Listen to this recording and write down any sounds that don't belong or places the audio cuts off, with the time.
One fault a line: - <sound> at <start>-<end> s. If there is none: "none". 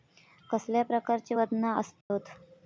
- dropout at 2.0-2.1 s